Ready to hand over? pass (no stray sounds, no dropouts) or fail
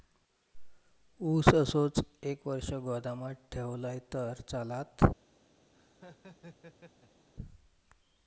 fail